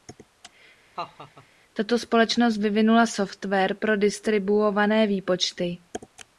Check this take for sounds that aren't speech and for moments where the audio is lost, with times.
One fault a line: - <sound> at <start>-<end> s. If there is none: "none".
- laugh at 1.0-1.5 s